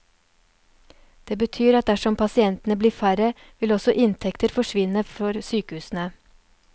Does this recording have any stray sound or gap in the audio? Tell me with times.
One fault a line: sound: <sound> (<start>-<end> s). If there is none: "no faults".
no faults